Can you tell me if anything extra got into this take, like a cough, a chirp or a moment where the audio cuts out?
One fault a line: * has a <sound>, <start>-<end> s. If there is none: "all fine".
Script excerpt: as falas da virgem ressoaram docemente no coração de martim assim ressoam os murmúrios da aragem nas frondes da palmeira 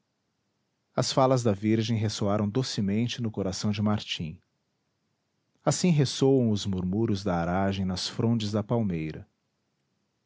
all fine